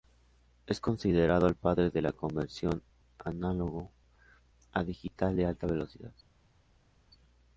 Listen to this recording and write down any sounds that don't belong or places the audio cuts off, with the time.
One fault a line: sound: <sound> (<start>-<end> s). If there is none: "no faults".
no faults